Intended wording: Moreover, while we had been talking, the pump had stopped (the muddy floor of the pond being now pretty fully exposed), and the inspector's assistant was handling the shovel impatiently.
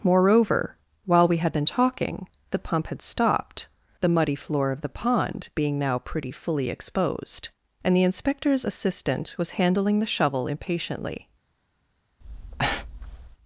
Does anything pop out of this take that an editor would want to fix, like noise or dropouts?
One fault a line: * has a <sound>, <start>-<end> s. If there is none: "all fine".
* has a breath, 12.2-13.4 s